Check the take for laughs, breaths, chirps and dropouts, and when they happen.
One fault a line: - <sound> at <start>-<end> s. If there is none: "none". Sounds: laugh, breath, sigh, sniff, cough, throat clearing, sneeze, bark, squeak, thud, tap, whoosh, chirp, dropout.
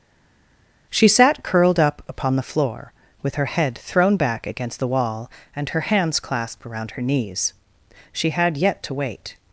none